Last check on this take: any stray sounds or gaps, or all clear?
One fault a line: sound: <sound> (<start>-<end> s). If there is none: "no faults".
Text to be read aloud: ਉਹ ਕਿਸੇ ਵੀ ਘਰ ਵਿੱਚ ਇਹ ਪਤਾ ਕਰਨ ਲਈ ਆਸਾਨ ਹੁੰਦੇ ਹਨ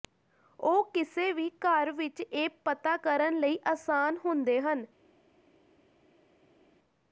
no faults